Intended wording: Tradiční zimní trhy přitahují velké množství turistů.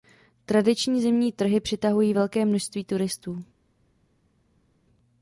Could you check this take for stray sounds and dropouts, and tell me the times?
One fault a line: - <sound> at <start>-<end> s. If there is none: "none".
none